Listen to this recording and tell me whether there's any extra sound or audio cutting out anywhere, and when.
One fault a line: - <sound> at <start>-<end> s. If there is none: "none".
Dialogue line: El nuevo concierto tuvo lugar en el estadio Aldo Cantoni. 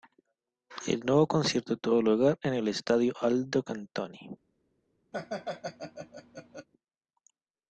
- laugh at 5.1-6.7 s